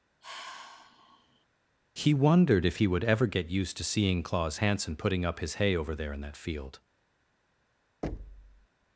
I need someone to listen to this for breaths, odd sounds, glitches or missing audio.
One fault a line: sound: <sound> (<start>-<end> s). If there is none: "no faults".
sound: sigh (0.2-1.5 s)
sound: thud (8.0-8.7 s)